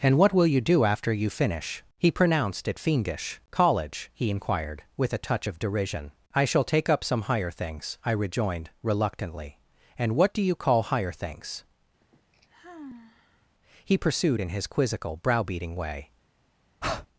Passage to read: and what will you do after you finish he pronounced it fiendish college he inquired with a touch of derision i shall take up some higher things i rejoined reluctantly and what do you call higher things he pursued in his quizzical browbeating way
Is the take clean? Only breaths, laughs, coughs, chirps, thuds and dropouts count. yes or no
no